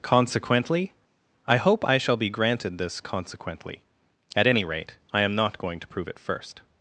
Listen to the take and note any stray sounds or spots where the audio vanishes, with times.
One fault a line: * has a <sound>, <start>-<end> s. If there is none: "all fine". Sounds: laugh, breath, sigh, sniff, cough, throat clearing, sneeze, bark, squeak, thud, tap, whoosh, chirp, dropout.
all fine